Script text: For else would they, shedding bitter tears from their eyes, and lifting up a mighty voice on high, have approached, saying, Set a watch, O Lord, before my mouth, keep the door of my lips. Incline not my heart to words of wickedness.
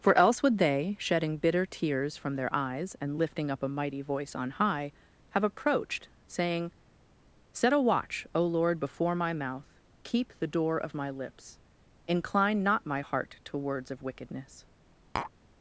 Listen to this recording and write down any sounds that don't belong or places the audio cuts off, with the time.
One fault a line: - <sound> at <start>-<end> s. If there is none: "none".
- tap at 15.2-15.3 s